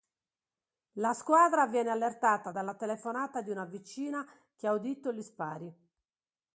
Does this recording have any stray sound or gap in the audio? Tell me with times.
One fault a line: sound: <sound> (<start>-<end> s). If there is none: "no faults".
no faults